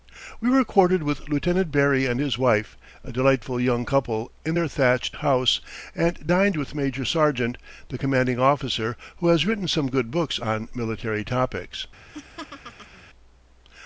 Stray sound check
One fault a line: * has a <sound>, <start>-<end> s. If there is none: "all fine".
* has a laugh, 12.1-13.1 s